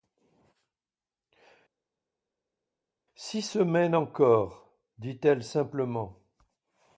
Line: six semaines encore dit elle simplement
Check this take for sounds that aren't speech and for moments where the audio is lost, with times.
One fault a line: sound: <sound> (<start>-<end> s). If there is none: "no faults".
no faults